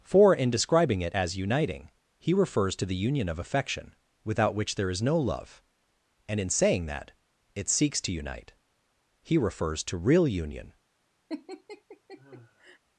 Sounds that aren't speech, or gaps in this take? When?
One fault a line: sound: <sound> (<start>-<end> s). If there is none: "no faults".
sound: laugh (11.3-12.8 s)